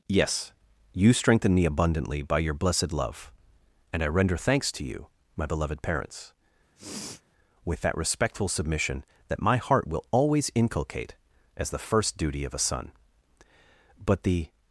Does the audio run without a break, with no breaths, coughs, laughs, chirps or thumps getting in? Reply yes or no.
no